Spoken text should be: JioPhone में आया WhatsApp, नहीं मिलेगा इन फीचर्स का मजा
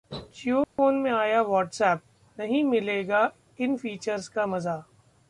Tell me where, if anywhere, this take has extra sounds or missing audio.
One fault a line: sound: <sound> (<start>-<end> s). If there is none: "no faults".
sound: dropout (0.6-0.8 s)